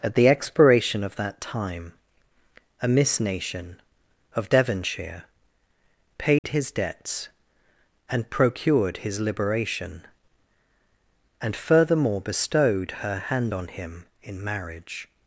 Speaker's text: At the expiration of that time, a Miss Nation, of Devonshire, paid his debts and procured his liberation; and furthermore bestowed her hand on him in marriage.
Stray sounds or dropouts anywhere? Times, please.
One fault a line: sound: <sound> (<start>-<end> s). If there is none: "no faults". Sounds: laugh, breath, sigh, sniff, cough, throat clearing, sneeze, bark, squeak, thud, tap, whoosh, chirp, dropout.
sound: dropout (6.4-6.4 s)